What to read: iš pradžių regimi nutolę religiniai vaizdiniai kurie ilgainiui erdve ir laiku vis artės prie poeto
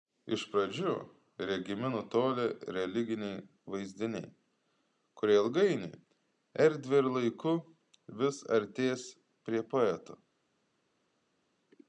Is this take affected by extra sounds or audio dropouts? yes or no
no